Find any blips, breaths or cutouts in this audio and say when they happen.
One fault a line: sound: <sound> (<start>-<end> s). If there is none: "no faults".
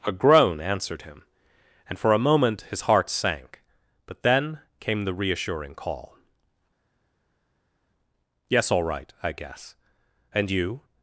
no faults